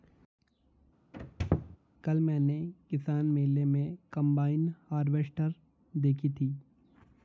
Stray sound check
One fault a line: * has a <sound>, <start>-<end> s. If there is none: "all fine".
* has a squeak, 1.1-1.8 s